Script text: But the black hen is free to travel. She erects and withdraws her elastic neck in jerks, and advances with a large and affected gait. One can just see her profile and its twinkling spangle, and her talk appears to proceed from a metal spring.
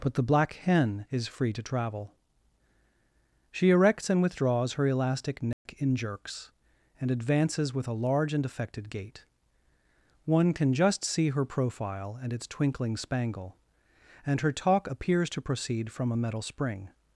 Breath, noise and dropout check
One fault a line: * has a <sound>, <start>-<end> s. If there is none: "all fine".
* has a dropout, 5.5-5.7 s